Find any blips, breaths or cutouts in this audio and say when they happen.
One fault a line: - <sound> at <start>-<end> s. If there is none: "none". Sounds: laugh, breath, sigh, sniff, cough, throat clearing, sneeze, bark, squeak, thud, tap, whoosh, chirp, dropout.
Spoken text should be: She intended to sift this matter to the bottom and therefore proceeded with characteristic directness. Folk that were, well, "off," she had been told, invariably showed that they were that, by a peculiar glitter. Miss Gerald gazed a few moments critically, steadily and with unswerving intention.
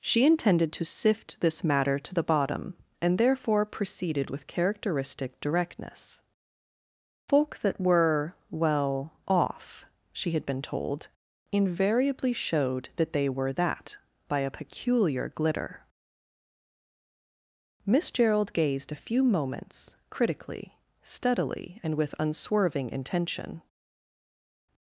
none